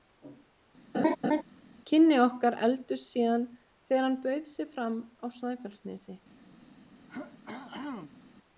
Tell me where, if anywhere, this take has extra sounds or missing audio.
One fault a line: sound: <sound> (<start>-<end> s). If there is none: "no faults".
sound: laugh (0.9-1.4 s)
sound: throat clearing (7.1-8.2 s)